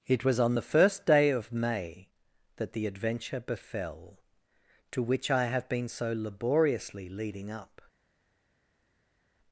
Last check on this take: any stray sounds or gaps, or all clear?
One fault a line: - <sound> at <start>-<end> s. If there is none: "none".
none